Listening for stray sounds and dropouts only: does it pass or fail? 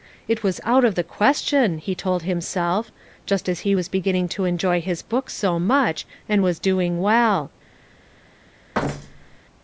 fail